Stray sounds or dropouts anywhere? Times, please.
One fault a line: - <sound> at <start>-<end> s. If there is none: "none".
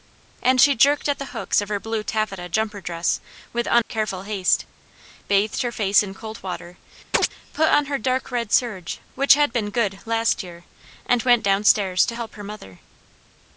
- dropout at 3.8-3.9 s
- chirp at 7.1-7.3 s